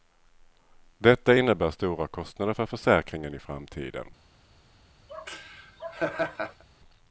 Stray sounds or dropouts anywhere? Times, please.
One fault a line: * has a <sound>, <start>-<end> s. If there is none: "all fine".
* has a laugh, 5.1-6.6 s